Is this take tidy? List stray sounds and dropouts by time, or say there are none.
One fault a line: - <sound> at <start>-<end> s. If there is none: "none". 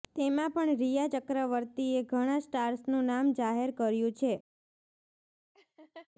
- laugh at 5.5-6.1 s